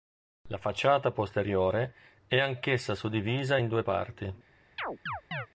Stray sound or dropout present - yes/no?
yes